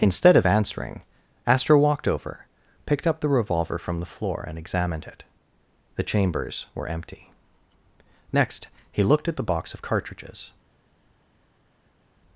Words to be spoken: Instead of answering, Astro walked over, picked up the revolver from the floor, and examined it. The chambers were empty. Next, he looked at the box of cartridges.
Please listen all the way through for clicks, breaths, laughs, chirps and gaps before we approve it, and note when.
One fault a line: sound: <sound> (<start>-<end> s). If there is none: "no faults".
no faults